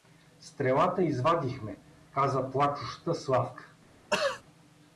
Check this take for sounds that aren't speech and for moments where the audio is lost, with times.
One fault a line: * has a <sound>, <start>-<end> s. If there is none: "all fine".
* has a throat clearing, 4.1-4.4 s